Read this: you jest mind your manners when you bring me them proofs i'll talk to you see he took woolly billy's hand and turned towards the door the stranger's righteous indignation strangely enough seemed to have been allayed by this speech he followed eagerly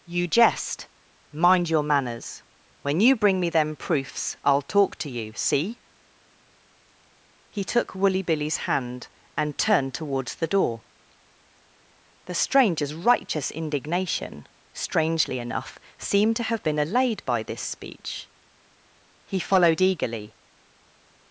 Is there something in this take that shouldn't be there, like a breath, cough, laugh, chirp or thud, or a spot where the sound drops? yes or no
no